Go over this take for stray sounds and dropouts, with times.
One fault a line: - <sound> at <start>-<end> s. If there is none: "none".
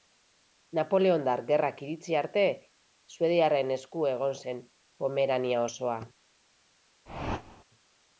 - whoosh at 7.1-7.6 s